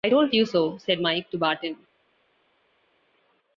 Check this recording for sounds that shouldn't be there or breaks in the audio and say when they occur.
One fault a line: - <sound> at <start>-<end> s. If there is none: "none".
none